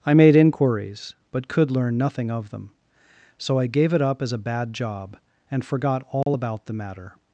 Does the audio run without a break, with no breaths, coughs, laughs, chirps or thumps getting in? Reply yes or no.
no